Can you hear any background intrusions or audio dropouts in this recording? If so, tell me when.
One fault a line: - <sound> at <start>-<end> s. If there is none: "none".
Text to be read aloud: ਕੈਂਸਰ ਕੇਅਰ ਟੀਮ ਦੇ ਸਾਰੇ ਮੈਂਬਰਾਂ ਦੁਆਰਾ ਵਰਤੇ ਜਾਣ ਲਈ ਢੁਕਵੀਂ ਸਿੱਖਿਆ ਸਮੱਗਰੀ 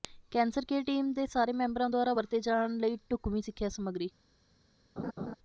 - laugh at 5.0-5.3 s